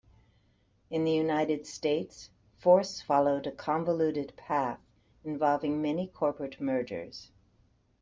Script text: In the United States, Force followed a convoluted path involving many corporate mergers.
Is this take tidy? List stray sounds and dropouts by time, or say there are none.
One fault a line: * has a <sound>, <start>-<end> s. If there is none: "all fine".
all fine